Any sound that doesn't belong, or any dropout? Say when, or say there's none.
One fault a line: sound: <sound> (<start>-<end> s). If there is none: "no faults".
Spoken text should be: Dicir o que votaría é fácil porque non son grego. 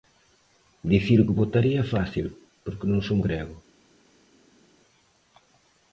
no faults